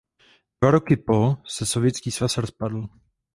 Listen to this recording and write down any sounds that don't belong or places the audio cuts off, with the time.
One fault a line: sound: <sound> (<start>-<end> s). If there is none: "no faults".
no faults